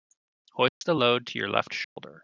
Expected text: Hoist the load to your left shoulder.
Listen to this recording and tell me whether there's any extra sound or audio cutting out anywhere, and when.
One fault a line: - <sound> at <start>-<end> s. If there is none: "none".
- dropout at 0.7-0.8 s
- dropout at 1.8-2.0 s